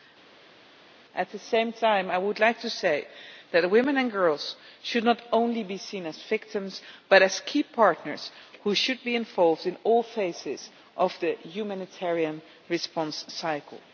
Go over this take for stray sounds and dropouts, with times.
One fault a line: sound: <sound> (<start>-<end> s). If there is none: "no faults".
no faults